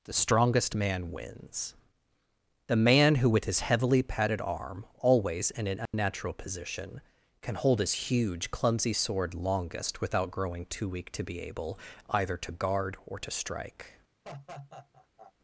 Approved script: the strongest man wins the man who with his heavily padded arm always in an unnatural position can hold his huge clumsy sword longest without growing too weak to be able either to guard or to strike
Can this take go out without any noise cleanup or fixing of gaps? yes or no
no